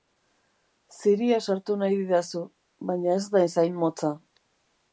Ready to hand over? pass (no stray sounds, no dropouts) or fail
pass